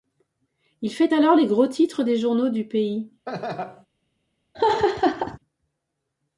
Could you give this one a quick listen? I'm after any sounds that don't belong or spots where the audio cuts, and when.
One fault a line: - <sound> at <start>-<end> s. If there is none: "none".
- laugh at 3.3-3.9 s
- laugh at 4.5-5.4 s